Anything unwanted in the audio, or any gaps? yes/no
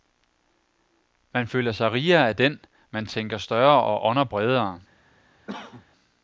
yes